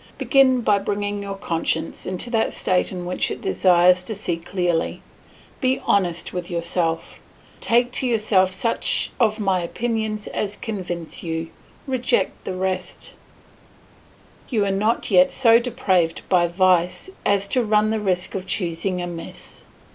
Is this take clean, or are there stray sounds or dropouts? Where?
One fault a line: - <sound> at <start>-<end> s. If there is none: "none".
none